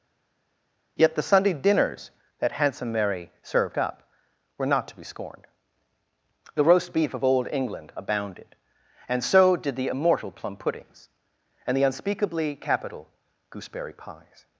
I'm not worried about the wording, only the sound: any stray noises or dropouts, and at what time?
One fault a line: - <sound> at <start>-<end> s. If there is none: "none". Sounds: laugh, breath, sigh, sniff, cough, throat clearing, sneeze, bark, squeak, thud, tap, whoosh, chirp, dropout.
none